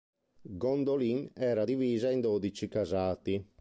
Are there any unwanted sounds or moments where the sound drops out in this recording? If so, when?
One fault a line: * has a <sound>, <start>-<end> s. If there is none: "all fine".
all fine